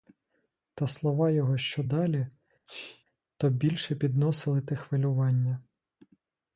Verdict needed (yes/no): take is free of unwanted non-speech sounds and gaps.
no